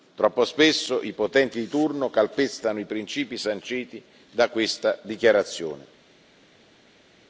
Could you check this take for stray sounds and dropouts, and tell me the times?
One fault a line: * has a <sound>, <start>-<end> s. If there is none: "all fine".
all fine